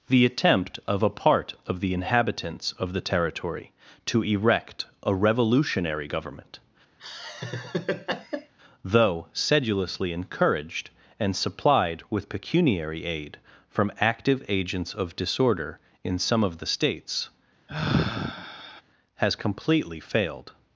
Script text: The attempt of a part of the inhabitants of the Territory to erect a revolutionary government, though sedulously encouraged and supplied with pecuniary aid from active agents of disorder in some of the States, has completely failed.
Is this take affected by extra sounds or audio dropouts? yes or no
yes